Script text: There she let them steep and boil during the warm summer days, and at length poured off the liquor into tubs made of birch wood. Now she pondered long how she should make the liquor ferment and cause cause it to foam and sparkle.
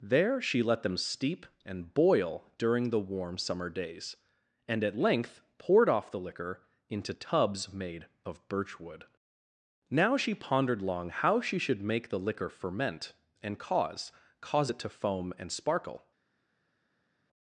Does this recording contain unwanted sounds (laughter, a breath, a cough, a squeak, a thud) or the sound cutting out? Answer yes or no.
no